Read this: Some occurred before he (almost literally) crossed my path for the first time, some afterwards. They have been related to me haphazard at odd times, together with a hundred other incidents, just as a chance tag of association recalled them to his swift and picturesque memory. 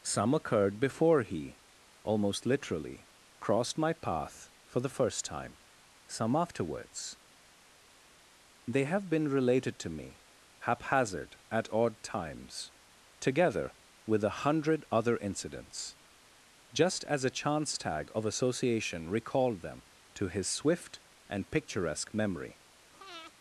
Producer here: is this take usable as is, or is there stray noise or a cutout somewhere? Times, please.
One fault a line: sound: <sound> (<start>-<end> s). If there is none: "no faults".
sound: breath (22.9-23.3 s)